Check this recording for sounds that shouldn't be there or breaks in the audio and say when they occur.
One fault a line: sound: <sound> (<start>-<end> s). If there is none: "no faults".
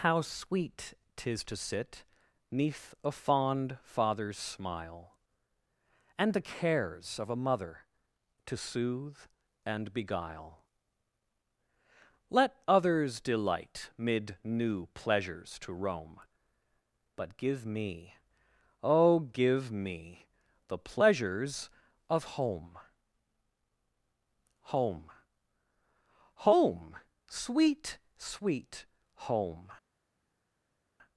no faults